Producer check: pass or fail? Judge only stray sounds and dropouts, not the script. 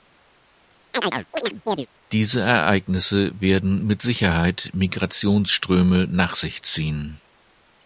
fail